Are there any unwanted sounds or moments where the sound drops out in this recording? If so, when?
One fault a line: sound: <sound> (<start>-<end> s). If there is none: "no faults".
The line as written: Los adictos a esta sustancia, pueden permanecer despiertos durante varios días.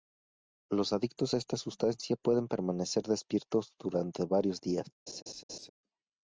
sound: laugh (5.1-5.7 s)